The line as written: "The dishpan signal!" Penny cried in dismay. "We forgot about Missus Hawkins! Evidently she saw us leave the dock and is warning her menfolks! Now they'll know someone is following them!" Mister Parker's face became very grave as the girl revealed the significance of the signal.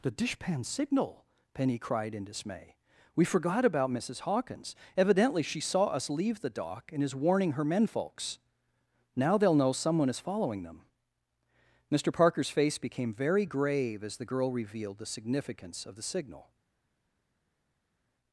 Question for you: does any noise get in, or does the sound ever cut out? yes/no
no